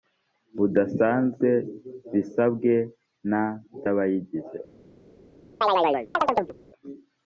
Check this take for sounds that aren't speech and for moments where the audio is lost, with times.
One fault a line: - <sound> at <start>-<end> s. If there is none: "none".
- chirp at 5.6-6.5 s